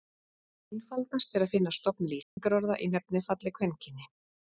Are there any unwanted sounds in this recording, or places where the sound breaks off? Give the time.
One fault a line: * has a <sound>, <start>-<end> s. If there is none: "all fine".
* has a dropout, 2.2-2.4 s